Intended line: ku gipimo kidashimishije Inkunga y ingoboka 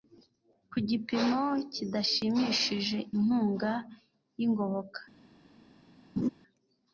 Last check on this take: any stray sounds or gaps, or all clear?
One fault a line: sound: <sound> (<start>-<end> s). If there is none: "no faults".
sound: laugh (6.2-6.3 s)